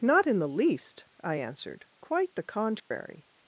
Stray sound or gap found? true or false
true